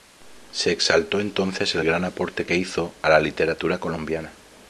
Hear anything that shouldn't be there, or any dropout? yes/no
no